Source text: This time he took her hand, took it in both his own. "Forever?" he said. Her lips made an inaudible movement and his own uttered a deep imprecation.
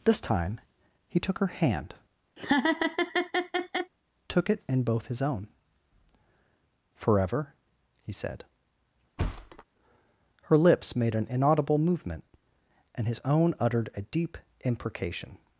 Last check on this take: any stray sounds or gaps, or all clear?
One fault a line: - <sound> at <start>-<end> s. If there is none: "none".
- laugh at 2.4-3.9 s
- thud at 9.2-9.6 s